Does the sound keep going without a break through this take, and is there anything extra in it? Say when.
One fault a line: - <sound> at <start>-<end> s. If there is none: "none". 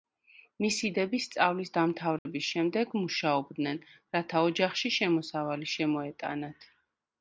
- dropout at 2.2-2.3 s